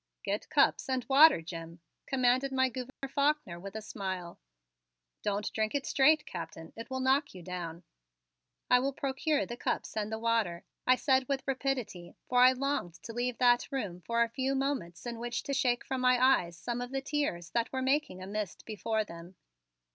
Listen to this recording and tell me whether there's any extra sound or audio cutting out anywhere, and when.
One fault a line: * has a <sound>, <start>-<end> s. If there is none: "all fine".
* has a dropout, 2.9-3.0 s